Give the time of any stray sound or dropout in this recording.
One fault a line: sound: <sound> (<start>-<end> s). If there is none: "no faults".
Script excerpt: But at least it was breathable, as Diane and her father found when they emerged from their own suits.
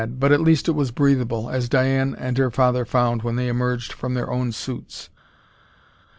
no faults